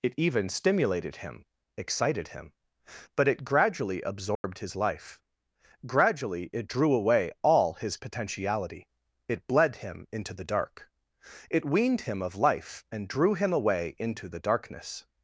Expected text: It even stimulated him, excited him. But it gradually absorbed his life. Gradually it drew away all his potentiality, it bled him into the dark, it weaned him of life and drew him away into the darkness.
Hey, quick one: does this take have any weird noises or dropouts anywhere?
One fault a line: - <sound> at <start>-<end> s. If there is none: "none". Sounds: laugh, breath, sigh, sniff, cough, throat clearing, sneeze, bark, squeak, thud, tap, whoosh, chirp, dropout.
- dropout at 4.4-4.4 s